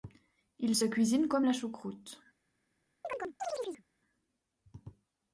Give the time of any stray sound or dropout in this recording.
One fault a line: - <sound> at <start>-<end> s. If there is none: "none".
- chirp at 3.0-3.8 s